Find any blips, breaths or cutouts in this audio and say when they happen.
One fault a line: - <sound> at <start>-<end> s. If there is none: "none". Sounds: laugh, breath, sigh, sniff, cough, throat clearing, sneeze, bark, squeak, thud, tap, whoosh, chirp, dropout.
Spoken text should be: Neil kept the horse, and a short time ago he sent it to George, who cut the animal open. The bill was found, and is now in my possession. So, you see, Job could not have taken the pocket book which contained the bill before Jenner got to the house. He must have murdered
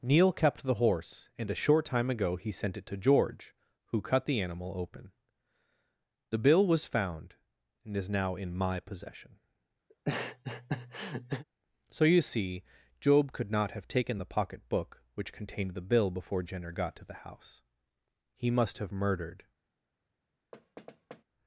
- laugh at 9.9-11.4 s
- thud at 20.5-21.2 s